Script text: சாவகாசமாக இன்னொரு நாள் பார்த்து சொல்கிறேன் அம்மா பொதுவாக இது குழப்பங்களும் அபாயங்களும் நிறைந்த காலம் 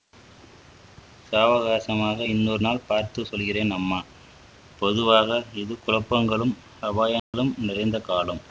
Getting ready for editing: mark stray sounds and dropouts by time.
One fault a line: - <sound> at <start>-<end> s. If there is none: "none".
- dropout at 7.2-7.3 s